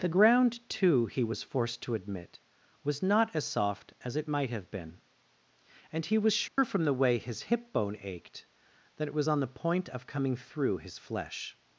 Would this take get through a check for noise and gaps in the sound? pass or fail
fail